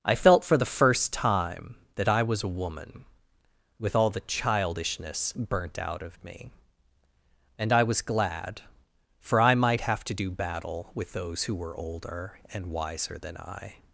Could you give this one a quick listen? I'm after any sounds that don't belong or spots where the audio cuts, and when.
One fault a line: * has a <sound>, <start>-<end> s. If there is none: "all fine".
all fine